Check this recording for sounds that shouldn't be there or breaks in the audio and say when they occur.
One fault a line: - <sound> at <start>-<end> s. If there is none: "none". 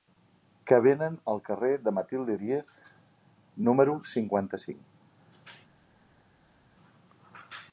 none